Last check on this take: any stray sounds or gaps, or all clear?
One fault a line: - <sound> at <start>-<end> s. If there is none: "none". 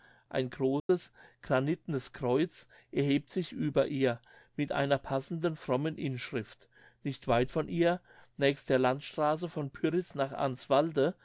- dropout at 0.8-0.9 s